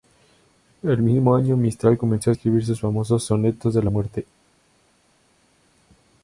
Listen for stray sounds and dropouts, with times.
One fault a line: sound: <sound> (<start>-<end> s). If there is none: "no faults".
no faults